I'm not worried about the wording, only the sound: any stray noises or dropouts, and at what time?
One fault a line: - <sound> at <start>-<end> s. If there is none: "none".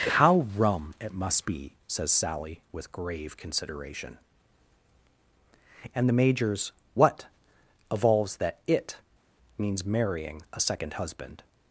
none